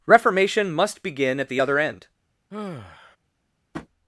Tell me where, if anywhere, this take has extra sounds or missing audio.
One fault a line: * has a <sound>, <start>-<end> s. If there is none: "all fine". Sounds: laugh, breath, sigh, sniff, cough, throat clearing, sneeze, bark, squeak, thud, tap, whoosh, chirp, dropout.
* has a sigh, 2.5-3.2 s
* has a tap, 3.7-3.9 s